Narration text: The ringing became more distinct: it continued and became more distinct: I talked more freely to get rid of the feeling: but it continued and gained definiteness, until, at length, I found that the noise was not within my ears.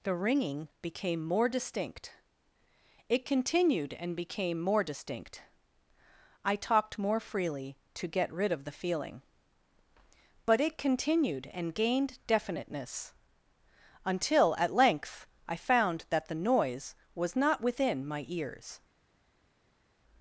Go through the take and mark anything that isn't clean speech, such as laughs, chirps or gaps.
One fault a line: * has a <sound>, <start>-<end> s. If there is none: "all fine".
all fine